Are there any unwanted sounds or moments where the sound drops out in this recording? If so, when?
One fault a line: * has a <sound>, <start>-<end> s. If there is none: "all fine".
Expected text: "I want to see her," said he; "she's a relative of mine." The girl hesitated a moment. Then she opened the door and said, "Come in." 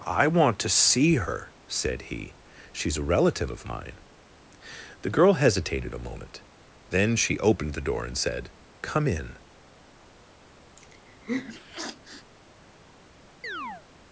* has a sniff, 10.8-12.3 s
* has a chirp, 13.4-13.8 s